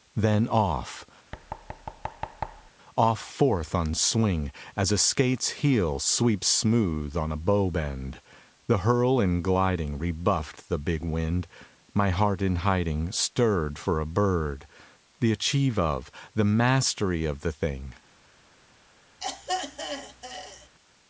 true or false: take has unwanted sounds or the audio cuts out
true